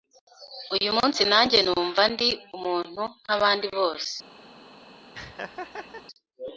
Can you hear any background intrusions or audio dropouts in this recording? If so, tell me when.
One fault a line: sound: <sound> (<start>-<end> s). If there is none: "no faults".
sound: laugh (5.1-6.1 s)